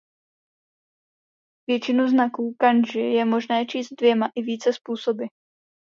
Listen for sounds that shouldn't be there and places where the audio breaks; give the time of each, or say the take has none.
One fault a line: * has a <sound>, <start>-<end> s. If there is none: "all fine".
all fine